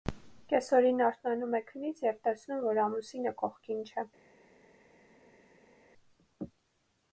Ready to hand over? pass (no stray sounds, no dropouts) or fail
pass